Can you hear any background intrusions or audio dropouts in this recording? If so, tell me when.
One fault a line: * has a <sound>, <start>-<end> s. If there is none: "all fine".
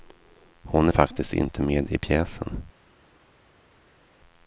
all fine